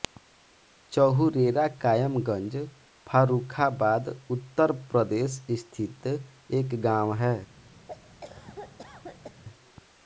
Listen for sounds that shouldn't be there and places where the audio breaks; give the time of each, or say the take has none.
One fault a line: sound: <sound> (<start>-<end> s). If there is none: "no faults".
sound: cough (7.9-9.4 s)